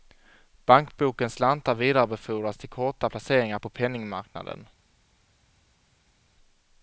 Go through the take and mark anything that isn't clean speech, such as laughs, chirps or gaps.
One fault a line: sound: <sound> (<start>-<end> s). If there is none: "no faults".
no faults